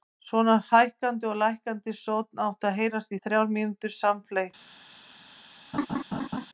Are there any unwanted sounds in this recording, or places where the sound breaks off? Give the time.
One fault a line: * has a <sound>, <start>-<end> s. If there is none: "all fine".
* has a laugh, 5.7-6.5 s